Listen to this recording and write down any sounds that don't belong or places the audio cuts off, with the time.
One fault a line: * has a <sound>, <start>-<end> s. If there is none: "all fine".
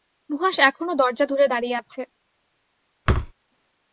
* has a thud, 3.1-3.3 s